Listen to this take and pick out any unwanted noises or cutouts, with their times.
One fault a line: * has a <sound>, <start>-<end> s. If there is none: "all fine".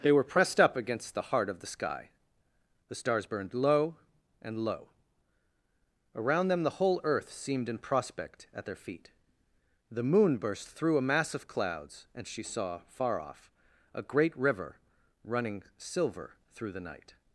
all fine